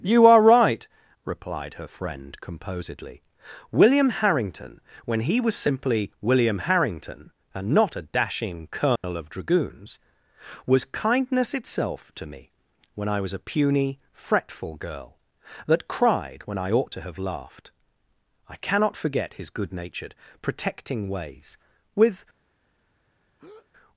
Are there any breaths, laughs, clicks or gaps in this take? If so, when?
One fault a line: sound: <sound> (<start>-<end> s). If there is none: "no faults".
sound: dropout (9.0-9.0 s)
sound: breath (23.4-23.7 s)